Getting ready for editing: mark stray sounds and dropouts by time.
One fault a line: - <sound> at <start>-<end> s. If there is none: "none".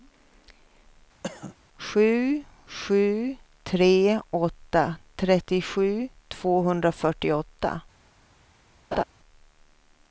- cough at 1.2-1.6 s
- laugh at 8.9-9.0 s